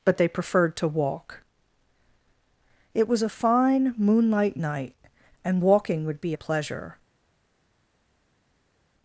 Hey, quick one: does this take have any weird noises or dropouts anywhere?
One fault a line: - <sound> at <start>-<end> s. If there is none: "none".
none